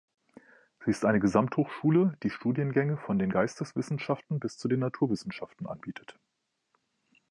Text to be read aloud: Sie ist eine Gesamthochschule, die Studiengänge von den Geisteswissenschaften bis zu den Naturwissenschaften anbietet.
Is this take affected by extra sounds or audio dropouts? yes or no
no